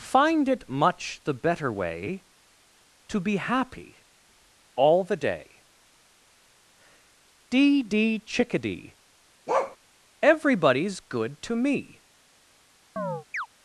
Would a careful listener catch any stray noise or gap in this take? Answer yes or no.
yes